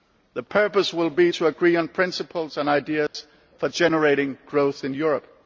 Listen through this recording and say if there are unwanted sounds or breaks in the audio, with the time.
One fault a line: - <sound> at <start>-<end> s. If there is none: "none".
- dropout at 3.1-3.1 s